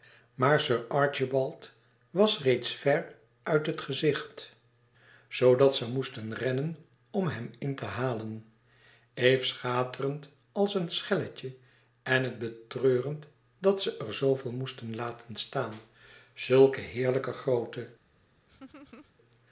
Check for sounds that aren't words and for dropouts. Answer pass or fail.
fail